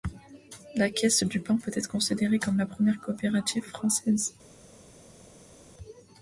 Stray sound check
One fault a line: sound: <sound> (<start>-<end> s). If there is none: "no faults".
no faults